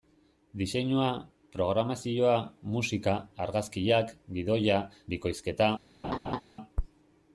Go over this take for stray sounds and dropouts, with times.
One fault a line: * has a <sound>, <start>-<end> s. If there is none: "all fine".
* has a laugh, 6.0-6.4 s